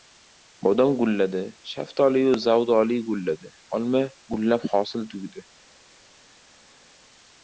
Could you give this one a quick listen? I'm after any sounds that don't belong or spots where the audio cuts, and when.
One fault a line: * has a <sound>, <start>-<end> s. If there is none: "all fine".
all fine